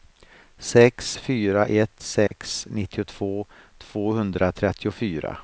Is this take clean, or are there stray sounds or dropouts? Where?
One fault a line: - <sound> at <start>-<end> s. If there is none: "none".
- dropout at 2.3-2.3 s